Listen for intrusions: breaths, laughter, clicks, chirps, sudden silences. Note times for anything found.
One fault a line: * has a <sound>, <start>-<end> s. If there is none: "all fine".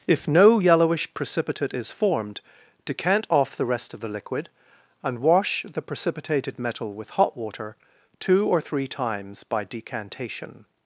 all fine